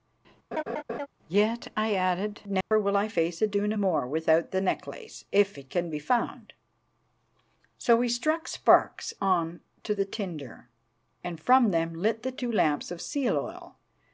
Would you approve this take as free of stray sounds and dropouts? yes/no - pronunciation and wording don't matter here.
no